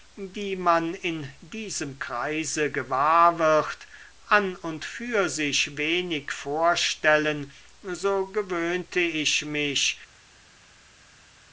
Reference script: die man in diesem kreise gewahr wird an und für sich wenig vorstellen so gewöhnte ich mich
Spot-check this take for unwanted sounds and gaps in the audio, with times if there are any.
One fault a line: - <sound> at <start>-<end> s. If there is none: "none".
none